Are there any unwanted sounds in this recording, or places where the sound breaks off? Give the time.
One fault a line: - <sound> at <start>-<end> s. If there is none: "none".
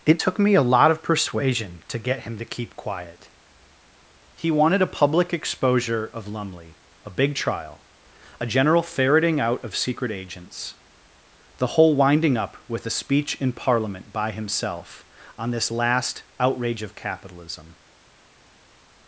none